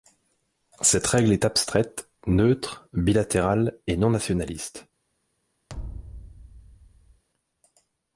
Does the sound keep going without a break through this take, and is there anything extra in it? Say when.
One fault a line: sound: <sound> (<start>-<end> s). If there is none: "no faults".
sound: thud (5.7-7.2 s)